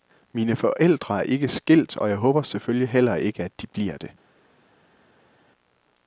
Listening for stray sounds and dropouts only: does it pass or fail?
pass